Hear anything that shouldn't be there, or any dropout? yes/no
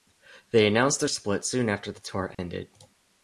yes